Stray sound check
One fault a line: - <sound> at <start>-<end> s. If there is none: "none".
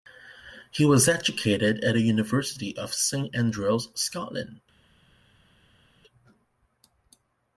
none